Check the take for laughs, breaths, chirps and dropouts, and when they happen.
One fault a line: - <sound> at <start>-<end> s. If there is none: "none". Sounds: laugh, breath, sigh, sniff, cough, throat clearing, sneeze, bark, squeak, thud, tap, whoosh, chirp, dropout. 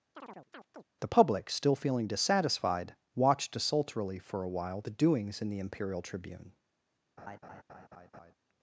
- chirp at 0.1-0.8 s
- laugh at 7.2-8.3 s